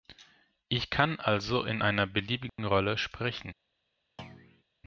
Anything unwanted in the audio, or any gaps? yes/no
yes